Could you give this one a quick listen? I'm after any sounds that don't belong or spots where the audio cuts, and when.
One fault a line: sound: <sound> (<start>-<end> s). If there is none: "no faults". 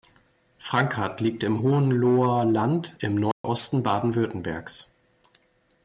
sound: dropout (3.3-3.4 s)